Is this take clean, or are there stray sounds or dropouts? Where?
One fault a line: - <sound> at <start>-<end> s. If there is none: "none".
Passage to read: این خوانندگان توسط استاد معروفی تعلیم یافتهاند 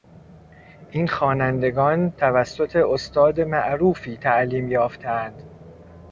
none